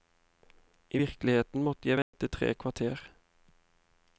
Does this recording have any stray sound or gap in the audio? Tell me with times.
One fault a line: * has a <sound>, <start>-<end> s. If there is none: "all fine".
* has a dropout, 2.0-2.1 s